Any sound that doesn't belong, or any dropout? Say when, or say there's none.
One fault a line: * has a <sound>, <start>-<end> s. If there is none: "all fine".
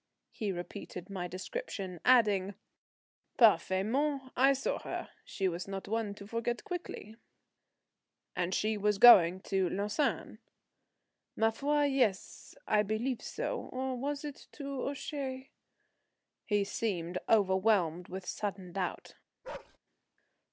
* has a bark, 19.4-19.8 s